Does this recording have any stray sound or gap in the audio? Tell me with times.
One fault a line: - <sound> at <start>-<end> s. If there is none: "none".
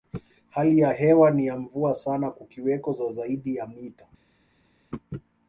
none